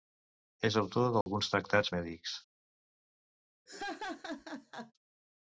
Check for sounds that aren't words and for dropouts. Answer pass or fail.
fail